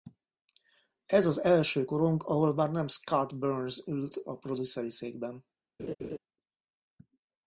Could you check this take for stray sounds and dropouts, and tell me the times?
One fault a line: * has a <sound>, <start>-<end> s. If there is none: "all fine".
* has a laugh, 5.8-6.2 s